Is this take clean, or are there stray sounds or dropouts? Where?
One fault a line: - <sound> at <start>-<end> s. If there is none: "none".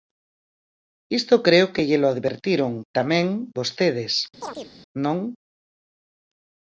- chirp at 4.4-4.7 s